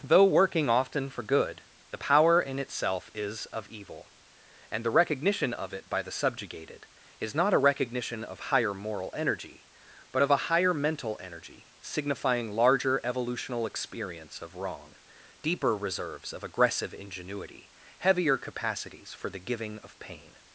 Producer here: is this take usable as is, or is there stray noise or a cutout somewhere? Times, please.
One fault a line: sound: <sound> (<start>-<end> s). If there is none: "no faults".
no faults